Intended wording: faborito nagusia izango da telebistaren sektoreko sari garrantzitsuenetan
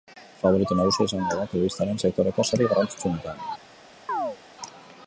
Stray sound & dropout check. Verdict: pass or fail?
fail